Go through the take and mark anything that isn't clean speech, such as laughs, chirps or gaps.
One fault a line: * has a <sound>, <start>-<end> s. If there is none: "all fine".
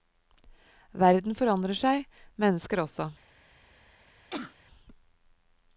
* has a sneeze, 4.3-4.6 s